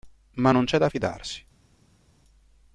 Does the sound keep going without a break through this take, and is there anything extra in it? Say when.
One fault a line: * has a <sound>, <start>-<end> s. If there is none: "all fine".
all fine